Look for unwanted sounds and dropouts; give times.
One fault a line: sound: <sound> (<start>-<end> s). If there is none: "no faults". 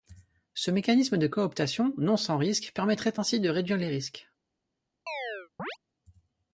sound: chirp (5.1-5.8 s)